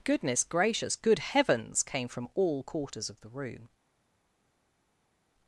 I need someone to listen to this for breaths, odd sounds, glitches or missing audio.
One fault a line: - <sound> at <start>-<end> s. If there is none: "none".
none